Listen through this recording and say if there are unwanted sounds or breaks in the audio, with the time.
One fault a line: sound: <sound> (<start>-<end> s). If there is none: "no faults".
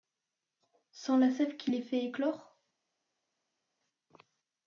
no faults